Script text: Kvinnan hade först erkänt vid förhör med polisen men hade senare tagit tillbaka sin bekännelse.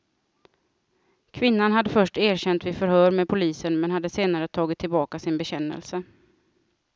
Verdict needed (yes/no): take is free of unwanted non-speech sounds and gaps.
yes